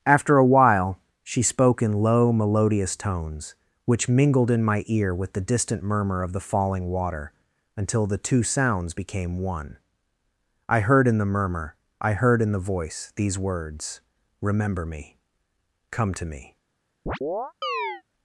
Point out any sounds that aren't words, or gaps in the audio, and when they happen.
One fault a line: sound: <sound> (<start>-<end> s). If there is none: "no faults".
sound: chirp (17.1-18.0 s)